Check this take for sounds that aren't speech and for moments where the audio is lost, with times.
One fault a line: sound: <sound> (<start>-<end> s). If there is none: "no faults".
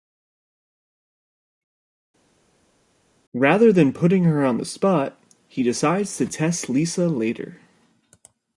no faults